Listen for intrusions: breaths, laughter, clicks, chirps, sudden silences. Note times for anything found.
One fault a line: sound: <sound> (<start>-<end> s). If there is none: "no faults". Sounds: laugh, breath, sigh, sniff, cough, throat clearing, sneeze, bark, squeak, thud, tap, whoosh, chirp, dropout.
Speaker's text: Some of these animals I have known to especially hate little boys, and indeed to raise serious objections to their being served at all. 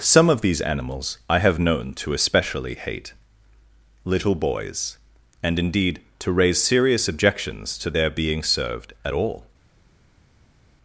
no faults